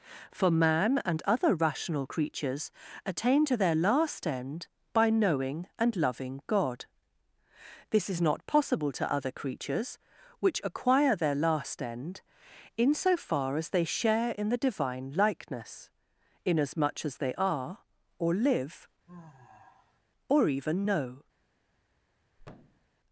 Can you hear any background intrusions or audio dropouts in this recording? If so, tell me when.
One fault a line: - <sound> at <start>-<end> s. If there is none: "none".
- sigh at 19.1-20.0 s
- thud at 22.4-22.9 s